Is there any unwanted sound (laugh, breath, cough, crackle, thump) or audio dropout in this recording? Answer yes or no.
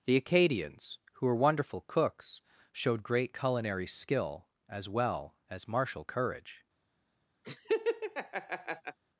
yes